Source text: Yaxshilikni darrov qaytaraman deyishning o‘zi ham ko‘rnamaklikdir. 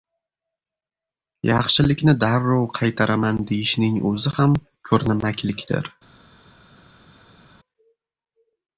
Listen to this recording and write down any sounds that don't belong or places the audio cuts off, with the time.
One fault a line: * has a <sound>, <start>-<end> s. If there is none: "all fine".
all fine